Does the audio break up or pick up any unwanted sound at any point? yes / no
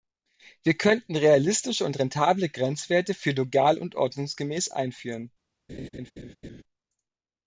yes